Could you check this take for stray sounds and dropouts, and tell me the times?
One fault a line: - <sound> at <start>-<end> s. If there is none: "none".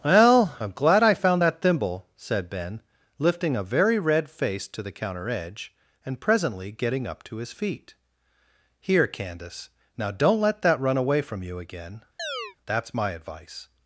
- chirp at 12.2-12.6 s